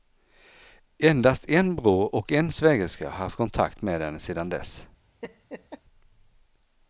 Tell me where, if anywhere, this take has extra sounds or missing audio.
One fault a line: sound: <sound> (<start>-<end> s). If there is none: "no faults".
sound: laugh (5.2-5.8 s)